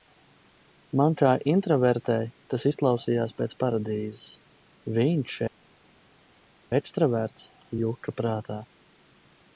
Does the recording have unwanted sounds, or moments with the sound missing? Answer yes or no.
no